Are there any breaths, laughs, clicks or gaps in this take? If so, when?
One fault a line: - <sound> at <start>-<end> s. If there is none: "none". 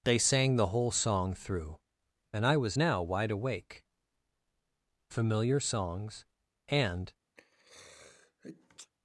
- sneeze at 7.4-8.9 s